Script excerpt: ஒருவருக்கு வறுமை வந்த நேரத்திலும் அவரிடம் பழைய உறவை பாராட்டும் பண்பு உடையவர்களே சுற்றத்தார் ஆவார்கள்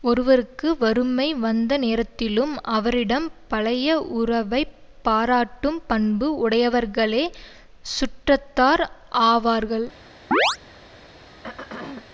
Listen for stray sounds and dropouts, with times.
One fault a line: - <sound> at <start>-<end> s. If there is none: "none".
- chirp at 10.3-10.6 s
- throat clearing at 11.3-12.1 s